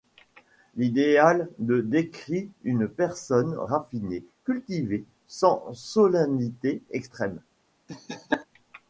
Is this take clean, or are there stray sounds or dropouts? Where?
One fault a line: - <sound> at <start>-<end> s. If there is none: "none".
- laugh at 7.9-8.5 s